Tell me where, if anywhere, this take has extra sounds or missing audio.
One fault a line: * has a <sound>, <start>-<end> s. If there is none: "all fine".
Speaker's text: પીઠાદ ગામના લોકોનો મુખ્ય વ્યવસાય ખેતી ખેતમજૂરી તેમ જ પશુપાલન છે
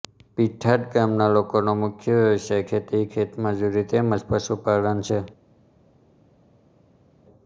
all fine